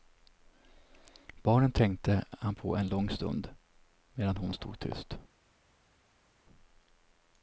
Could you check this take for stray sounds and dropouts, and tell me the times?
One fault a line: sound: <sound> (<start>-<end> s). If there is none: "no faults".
no faults